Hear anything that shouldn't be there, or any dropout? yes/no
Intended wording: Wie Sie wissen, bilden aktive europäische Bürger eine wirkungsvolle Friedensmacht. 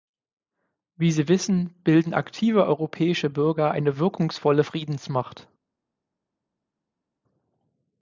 no